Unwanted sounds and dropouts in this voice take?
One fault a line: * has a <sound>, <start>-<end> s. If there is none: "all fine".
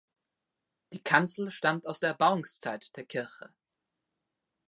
all fine